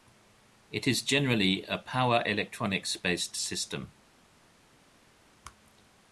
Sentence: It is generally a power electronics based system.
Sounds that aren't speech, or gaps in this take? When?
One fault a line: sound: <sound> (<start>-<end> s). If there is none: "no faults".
no faults